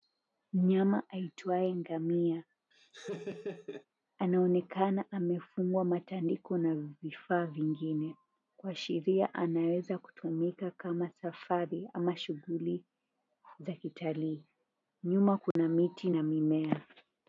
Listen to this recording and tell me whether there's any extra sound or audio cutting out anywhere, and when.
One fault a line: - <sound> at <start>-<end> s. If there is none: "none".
- laugh at 2.7-3.9 s
- dropout at 15.5-15.6 s